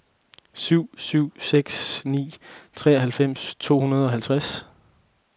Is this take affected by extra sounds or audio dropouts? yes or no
no